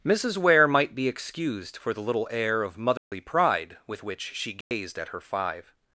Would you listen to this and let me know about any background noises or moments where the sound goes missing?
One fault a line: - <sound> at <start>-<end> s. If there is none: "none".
- dropout at 3.0-3.1 s
- dropout at 4.6-4.7 s